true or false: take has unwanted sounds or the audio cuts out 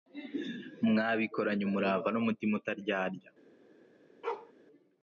true